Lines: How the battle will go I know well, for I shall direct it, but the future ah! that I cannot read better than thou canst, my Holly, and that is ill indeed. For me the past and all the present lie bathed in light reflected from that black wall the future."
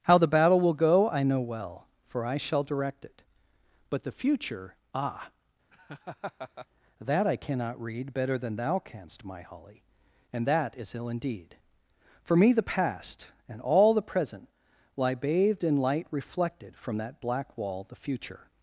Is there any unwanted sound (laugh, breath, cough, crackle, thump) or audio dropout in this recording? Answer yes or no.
yes